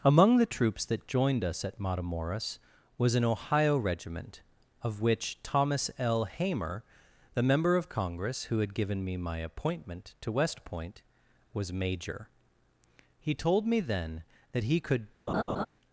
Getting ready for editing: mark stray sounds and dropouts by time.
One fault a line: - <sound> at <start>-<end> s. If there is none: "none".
- laugh at 15.3-15.7 s